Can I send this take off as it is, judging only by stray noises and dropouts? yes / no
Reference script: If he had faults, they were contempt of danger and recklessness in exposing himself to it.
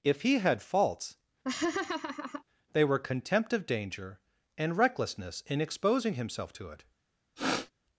no